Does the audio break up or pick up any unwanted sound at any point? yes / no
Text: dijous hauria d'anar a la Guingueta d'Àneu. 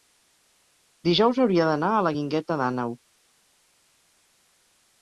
no